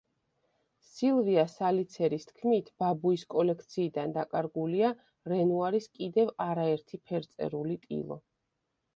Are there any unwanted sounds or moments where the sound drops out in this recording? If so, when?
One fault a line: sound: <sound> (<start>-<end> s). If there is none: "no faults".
no faults